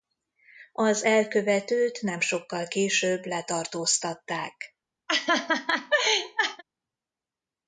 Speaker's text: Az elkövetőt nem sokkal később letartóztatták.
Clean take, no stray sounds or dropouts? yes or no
no